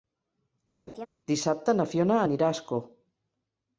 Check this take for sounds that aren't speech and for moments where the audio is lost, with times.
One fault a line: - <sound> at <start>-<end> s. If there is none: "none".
- laugh at 0.9-1.1 s